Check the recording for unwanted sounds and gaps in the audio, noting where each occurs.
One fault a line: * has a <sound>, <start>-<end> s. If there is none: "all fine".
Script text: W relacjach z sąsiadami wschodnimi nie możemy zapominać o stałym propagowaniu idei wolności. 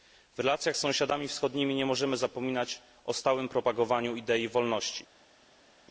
all fine